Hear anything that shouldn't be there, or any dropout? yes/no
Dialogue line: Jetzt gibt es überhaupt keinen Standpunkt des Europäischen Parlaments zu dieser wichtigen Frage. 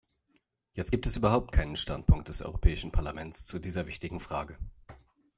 no